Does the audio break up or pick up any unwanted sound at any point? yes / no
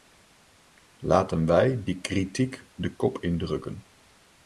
no